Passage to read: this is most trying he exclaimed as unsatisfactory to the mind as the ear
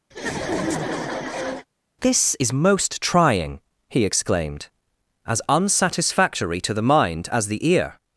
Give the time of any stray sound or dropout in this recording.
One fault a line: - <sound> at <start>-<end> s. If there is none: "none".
- laugh at 0.1-1.7 s